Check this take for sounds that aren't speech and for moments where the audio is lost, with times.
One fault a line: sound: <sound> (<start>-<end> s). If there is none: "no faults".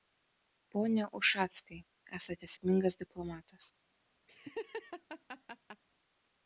sound: laugh (4.3-5.8 s)